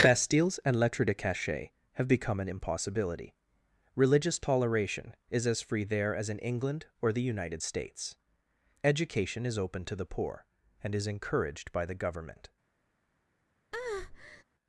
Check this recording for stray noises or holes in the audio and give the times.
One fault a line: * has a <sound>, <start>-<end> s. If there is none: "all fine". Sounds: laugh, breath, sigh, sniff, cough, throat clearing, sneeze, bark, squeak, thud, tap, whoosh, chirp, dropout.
* has a breath, 13.7-14.4 s